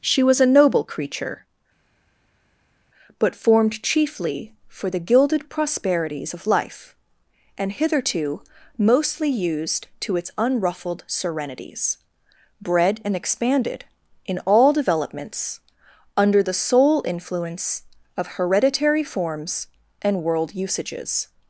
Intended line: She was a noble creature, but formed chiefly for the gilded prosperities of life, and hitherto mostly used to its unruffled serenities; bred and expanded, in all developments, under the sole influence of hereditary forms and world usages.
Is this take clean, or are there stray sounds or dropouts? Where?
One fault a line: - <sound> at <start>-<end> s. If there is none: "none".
none